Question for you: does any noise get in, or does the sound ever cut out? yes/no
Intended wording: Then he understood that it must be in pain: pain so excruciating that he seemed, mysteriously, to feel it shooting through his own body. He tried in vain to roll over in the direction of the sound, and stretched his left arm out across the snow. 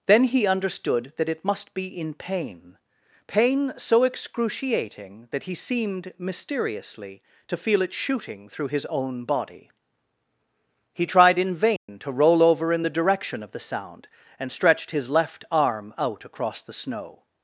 yes